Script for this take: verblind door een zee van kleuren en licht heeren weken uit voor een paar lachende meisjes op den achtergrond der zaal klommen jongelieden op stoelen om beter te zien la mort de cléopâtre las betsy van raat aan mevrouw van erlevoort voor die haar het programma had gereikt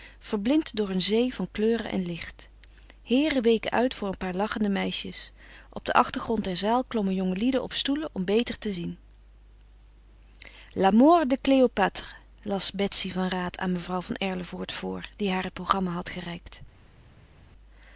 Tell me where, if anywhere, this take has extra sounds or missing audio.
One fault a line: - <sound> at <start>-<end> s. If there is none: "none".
none